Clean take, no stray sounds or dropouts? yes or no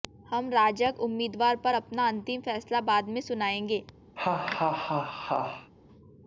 no